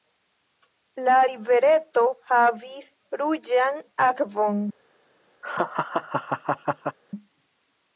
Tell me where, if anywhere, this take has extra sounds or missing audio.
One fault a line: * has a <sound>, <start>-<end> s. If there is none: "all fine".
* has a laugh, 5.4-7.0 s